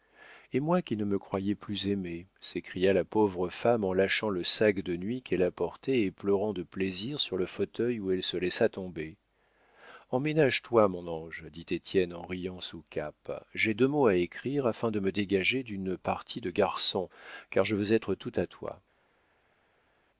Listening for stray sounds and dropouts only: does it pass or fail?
pass